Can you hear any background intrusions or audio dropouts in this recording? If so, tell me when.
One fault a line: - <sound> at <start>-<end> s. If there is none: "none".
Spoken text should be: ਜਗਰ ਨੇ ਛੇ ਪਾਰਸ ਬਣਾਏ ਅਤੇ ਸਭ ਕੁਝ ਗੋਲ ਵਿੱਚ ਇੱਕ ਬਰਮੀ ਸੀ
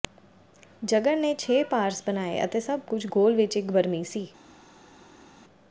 none